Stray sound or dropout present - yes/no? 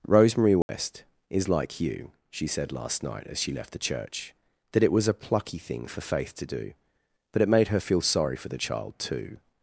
yes